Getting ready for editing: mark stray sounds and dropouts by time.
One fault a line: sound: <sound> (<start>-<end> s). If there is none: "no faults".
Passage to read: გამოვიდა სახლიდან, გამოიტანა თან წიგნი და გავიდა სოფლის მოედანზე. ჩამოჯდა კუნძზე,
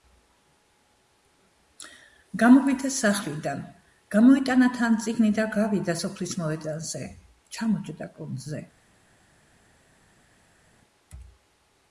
no faults